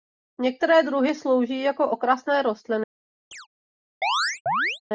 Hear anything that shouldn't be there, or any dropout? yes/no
yes